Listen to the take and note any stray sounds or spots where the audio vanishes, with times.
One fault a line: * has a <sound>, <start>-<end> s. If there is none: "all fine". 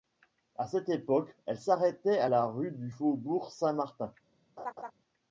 * has a laugh, 4.6-4.9 s